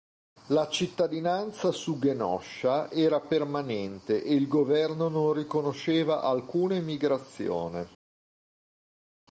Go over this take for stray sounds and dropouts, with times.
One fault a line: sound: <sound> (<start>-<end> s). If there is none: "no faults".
no faults